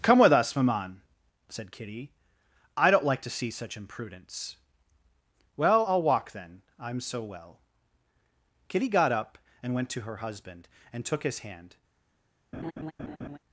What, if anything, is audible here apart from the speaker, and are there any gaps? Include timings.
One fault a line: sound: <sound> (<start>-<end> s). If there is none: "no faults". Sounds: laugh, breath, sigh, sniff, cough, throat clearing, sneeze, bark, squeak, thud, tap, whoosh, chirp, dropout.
sound: laugh (12.5-13.4 s)